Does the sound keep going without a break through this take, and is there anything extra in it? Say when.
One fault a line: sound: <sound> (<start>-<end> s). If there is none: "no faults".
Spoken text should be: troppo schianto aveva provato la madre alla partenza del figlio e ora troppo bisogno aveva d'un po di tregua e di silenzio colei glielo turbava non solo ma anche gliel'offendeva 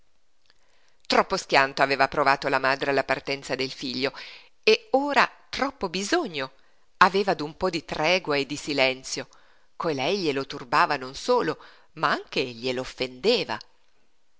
no faults